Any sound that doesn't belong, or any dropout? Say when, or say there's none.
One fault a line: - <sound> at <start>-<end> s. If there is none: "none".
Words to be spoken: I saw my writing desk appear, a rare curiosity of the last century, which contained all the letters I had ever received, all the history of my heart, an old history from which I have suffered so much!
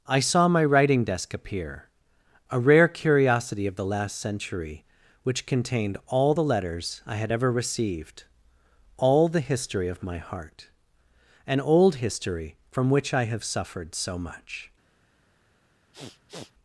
- sniff at 15.9-16.5 s